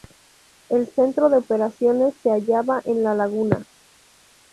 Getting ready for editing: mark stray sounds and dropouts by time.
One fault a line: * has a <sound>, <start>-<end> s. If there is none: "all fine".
all fine